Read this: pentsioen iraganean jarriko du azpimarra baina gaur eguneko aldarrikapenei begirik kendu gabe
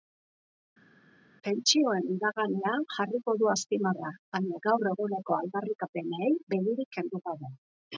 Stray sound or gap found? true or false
false